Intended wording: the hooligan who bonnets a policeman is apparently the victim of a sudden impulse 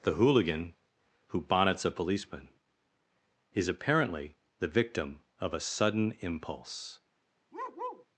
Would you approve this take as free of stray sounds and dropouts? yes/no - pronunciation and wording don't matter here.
no